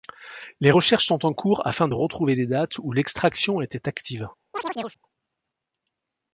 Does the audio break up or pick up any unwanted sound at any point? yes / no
yes